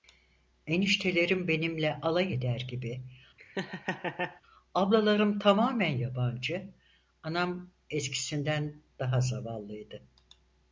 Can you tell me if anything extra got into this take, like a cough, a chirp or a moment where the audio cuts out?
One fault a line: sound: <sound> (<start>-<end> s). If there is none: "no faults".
sound: laugh (3.4-4.4 s)